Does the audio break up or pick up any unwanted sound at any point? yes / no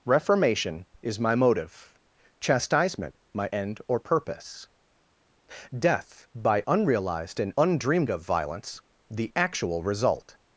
no